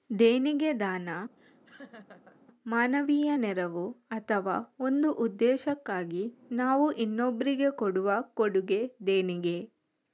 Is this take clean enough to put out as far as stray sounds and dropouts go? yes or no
no